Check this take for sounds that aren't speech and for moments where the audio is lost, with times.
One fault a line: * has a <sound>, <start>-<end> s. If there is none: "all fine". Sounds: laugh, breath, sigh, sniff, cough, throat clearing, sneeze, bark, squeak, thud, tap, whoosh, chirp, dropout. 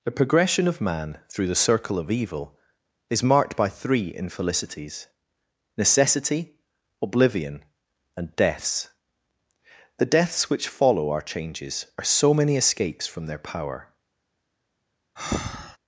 * has a breath, 15.2-15.8 s